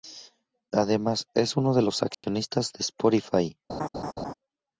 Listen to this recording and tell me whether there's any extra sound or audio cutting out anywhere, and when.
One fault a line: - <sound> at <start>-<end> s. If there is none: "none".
- dropout at 2.1-2.2 s
- laugh at 3.7-4.3 s